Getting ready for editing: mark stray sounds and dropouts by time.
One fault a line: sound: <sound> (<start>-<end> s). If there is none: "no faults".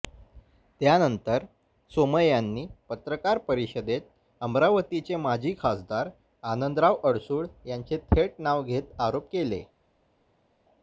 no faults